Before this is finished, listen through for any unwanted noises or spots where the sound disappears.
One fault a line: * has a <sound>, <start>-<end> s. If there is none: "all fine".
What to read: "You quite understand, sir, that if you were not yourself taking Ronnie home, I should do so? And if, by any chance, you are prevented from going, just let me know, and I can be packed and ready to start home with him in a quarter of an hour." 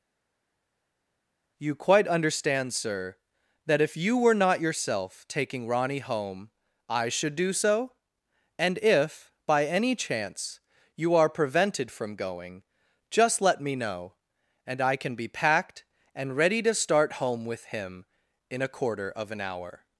all fine